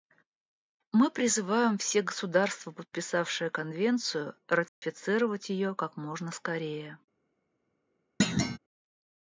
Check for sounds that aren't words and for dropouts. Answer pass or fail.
fail